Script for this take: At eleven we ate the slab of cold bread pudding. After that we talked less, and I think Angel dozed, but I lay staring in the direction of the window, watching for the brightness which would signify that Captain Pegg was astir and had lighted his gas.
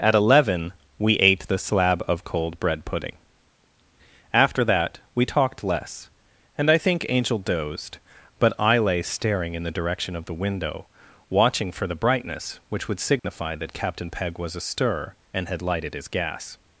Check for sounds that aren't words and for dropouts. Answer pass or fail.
fail